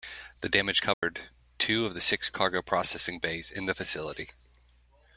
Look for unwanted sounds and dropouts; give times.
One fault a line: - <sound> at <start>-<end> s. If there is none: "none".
- dropout at 0.9-1.0 s